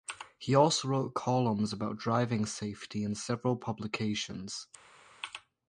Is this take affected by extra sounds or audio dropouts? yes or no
no